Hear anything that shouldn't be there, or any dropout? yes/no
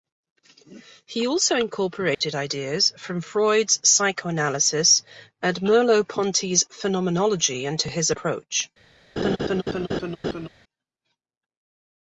yes